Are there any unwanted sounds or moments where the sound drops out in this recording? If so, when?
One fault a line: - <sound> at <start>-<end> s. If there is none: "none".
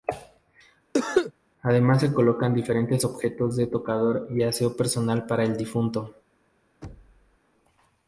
- cough at 0.9-1.3 s
- thud at 6.8-7.4 s